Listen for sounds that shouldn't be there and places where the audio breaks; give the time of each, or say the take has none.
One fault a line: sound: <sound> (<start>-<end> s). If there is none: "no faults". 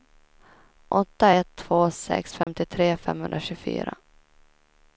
sound: dropout (2.4-2.5 s)